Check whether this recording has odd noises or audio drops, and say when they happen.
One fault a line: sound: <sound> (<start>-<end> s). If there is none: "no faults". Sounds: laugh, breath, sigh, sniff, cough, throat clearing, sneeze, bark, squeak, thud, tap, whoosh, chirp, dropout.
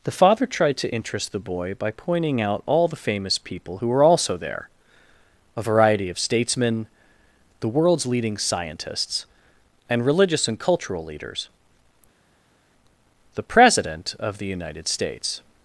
no faults